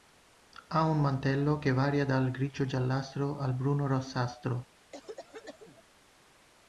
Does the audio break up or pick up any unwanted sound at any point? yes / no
yes